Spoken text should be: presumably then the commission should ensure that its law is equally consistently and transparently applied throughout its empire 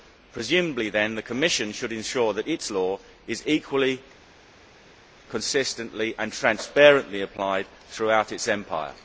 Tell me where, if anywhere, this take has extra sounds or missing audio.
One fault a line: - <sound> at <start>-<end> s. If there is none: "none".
none